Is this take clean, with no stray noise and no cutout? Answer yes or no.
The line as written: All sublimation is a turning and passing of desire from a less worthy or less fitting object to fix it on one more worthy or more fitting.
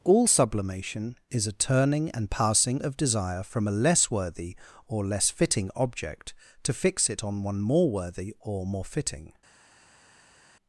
yes